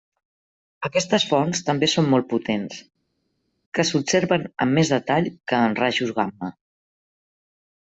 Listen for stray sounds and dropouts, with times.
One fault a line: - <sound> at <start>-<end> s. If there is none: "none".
none